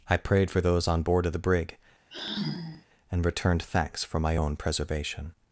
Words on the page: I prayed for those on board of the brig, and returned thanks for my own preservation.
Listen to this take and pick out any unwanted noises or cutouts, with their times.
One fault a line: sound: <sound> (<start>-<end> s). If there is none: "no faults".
sound: sigh (2.1-2.9 s)